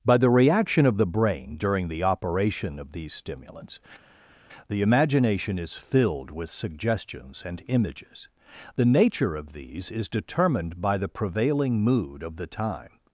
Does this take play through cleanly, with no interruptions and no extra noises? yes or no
yes